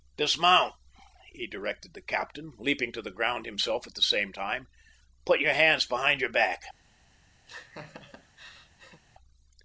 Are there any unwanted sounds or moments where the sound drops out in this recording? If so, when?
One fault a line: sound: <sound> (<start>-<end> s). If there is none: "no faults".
sound: laugh (7.5-9.0 s)